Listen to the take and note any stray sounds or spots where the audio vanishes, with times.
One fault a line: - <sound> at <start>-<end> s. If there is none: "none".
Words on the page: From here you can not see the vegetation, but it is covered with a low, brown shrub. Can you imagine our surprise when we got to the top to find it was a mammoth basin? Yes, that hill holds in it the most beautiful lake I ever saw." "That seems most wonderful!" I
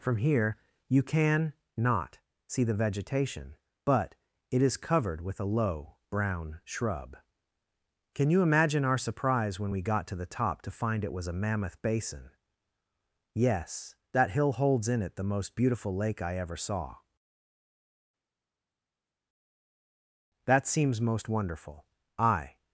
none